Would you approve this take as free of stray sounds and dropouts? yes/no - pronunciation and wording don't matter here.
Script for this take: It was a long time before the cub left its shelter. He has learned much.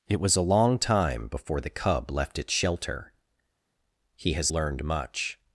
yes